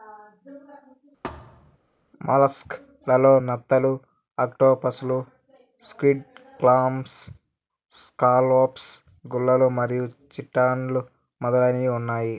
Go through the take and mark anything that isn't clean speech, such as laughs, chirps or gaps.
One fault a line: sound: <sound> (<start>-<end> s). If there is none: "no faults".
sound: thud (1.2-1.8 s)